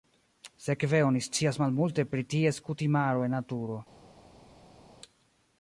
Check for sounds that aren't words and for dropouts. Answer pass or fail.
pass